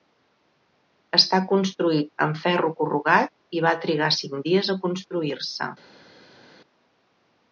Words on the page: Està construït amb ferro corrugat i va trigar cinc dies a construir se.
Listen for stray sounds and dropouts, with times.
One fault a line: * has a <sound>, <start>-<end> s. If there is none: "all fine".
all fine